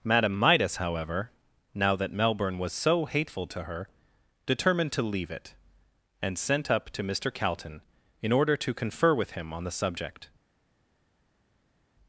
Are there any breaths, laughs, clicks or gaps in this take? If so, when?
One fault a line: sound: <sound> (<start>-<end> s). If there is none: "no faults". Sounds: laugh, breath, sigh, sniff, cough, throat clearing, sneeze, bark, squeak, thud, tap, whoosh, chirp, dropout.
no faults